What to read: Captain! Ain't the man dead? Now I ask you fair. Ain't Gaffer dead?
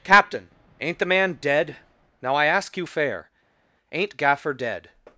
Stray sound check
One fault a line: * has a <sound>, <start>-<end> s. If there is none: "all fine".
all fine